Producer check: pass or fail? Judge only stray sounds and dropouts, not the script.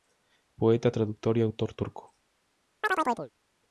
fail